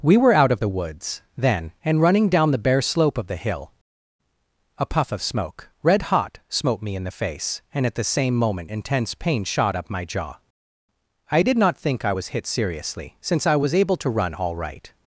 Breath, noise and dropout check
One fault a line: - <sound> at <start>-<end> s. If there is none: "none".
none